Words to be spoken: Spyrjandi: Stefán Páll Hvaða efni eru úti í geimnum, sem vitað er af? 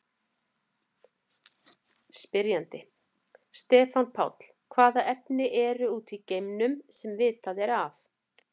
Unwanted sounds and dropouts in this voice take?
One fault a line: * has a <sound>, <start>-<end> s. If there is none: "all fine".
all fine